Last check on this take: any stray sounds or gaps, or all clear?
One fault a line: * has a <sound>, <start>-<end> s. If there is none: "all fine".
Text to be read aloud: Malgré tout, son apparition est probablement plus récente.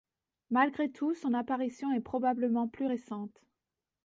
all fine